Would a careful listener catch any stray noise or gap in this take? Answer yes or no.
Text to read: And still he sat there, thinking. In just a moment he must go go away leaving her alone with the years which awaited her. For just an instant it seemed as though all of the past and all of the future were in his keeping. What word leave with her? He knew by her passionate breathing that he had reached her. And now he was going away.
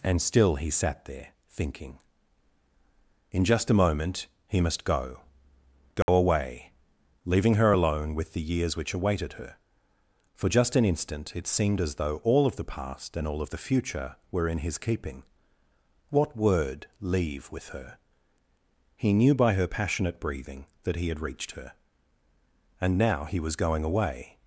yes